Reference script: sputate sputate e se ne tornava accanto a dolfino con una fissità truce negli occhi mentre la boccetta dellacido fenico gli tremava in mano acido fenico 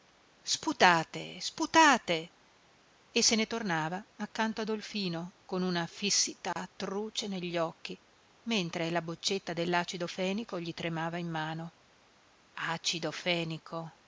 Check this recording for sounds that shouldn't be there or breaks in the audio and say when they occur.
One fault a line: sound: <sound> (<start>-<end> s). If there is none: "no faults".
sound: dropout (6.5-6.6 s)